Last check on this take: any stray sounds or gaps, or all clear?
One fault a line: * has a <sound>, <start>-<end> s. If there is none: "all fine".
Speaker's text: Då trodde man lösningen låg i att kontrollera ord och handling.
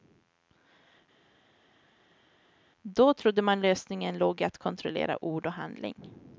all fine